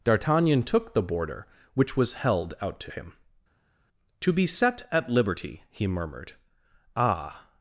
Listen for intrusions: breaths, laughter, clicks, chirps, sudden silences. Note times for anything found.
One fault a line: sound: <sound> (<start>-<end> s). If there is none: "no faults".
no faults